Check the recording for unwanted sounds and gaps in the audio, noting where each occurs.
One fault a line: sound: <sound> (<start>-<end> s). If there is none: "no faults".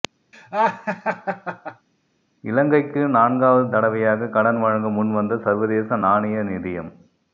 sound: laugh (0.3-1.9 s)